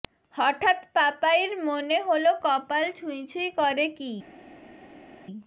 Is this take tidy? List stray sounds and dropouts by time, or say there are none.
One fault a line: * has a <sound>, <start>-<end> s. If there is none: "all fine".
all fine